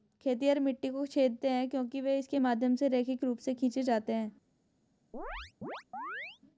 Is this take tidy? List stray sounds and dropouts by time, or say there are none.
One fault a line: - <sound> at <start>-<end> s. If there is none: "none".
- chirp at 5.1-6.4 s